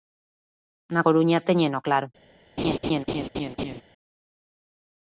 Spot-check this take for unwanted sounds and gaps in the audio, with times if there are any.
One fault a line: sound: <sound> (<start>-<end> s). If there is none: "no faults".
sound: laugh (2.6-3.8 s)